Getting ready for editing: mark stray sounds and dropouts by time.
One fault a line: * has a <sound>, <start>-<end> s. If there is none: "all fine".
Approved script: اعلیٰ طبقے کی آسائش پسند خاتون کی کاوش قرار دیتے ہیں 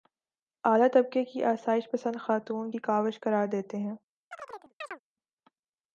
* has a chirp, 4.3-5.0 s